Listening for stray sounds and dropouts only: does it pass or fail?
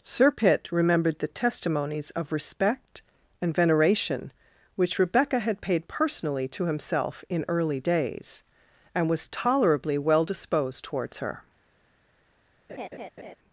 fail